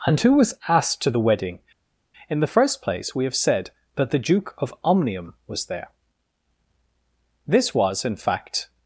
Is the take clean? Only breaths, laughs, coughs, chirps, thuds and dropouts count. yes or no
yes